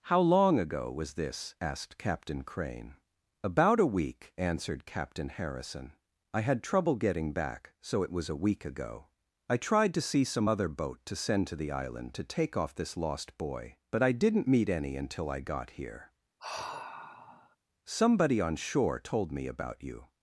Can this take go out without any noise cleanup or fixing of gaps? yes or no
no